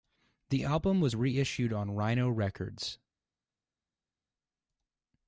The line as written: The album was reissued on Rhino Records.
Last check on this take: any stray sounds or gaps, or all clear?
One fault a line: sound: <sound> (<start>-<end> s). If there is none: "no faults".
no faults